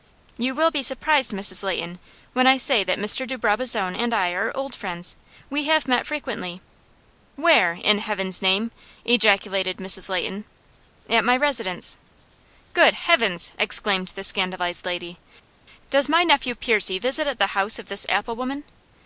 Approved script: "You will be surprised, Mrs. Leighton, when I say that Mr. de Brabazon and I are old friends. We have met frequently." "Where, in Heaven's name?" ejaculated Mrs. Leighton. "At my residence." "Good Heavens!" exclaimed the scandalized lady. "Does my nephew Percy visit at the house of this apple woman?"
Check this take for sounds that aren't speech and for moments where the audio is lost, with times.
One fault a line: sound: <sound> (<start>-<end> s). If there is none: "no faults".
no faults